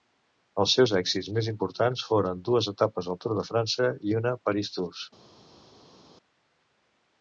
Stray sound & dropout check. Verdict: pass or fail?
pass